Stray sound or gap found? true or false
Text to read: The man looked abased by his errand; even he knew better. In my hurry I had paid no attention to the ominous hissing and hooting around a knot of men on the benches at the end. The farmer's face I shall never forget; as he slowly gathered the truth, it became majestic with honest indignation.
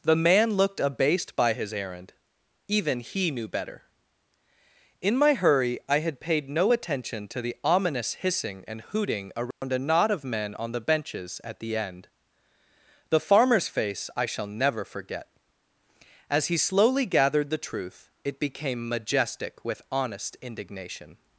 true